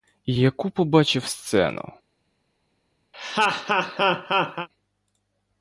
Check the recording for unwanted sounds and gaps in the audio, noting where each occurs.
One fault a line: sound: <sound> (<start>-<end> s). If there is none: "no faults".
sound: laugh (3.1-4.7 s)